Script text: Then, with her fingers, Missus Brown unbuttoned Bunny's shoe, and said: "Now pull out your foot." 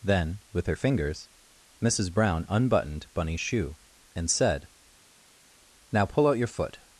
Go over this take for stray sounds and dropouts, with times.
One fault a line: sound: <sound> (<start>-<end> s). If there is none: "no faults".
no faults